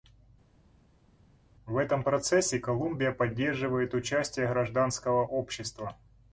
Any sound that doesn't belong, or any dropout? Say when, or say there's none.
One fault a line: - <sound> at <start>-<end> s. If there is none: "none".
none